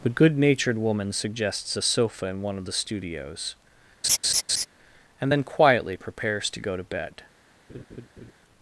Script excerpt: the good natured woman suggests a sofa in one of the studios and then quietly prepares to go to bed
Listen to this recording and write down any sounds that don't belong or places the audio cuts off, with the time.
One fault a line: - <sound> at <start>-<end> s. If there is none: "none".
- laugh at 4.0-4.7 s
- laugh at 7.7-8.3 s